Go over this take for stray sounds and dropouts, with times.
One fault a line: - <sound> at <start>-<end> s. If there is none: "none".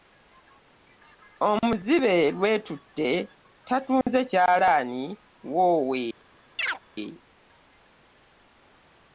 - dropout at 4.0-4.1 s
- chirp at 6.6-6.8 s